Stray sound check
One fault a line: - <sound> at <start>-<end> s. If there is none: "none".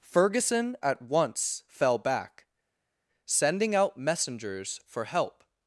none